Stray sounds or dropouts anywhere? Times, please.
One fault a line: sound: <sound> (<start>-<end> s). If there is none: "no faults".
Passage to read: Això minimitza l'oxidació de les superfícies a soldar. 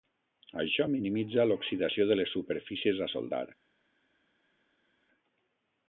no faults